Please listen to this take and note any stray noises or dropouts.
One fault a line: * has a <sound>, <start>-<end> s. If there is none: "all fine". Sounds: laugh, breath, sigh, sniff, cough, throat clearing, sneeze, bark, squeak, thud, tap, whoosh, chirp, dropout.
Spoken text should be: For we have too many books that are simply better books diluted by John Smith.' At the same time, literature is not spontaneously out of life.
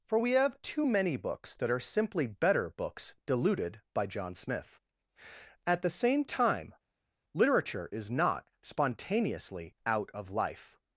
all fine